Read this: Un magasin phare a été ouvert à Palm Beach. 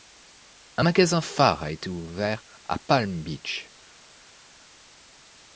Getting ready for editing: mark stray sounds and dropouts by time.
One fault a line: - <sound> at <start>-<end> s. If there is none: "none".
none